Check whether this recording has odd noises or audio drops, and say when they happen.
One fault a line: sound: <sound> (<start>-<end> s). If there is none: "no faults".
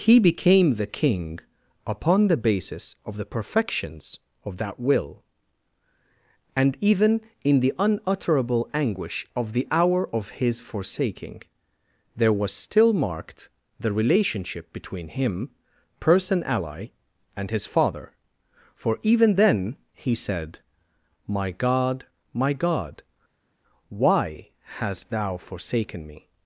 no faults